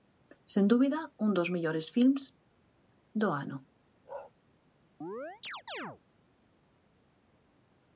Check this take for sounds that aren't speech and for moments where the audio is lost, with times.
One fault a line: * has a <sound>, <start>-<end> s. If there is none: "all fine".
* has a bark, 4.0-4.3 s
* has a chirp, 5.0-6.0 s